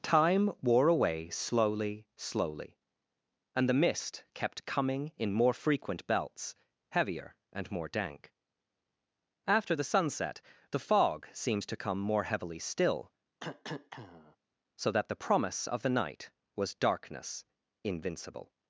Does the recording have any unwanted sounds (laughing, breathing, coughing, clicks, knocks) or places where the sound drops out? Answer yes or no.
yes